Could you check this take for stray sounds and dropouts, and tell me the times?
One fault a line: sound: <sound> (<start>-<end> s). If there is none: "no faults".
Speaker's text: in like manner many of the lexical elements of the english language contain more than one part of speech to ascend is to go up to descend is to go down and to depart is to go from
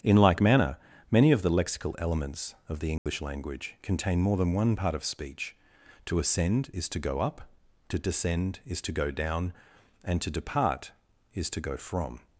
sound: dropout (3.0-3.1 s)